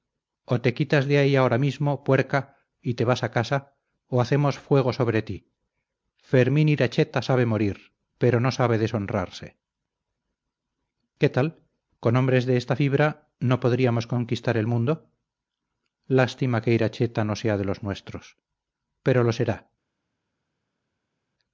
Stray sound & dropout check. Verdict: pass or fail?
pass